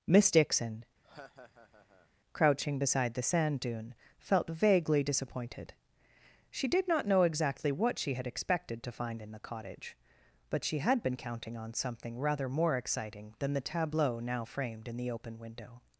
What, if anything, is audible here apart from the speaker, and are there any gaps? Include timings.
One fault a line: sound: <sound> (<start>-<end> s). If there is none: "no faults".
sound: laugh (1.0-2.1 s)